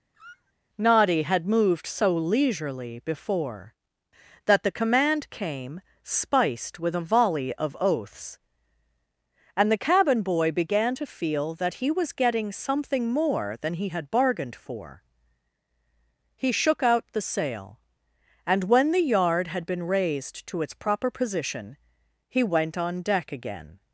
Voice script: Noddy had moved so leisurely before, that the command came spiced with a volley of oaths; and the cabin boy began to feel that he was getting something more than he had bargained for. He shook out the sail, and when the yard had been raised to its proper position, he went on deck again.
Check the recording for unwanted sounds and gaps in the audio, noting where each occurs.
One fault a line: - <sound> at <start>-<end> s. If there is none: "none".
- squeak at 0.1-0.5 s